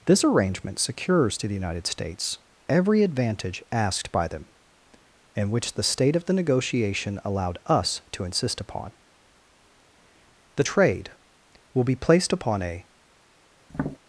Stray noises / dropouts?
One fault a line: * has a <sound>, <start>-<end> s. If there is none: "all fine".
* has a tap, 13.7-14.0 s